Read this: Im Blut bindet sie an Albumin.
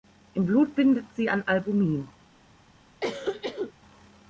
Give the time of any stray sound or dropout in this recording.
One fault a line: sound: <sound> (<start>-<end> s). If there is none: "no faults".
sound: cough (3.0-3.7 s)